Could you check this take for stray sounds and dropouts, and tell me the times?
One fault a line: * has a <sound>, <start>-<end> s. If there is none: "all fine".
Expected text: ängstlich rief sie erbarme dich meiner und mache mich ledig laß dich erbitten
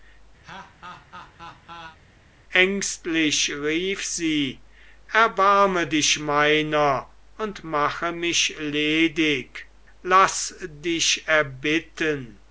* has a laugh, 0.4-2.0 s